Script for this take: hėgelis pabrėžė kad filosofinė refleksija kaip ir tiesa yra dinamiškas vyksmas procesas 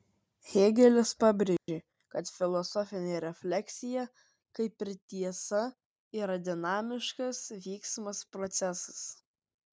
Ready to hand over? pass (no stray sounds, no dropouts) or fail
fail